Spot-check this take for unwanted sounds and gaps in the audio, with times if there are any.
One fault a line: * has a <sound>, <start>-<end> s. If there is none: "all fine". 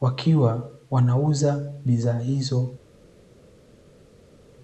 all fine